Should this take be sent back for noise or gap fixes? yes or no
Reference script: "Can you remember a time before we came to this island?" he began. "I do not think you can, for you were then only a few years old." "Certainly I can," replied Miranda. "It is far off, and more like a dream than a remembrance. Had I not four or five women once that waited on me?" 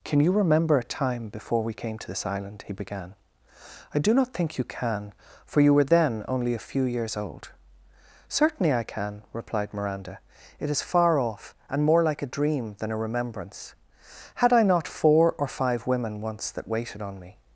no